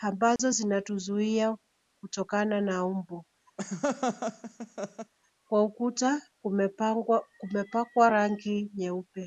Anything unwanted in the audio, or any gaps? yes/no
yes